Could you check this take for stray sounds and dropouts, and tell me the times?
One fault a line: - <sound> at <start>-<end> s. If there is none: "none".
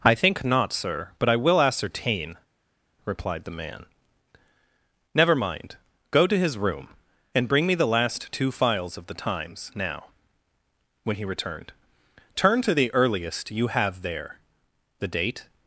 none